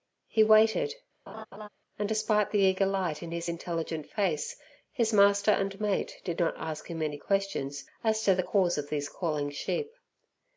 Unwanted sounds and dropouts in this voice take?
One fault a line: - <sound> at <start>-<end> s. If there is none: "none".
- laugh at 1.3-1.7 s